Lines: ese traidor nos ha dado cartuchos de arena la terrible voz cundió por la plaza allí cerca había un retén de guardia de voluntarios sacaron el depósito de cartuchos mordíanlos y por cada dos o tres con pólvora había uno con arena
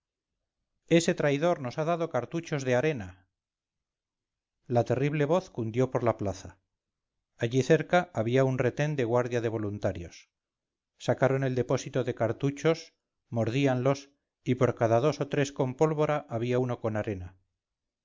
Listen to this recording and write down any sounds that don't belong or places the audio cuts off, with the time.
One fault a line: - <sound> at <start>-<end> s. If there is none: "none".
none